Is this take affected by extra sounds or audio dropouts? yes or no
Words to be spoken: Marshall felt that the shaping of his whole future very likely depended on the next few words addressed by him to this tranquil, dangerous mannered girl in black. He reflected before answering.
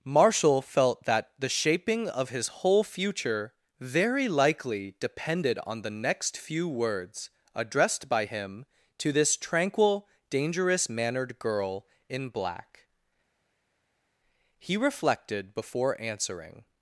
no